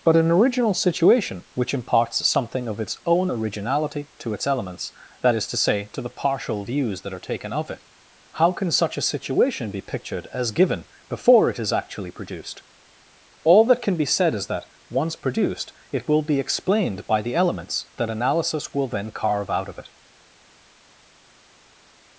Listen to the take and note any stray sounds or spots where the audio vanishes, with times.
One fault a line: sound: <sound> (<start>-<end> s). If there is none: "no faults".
no faults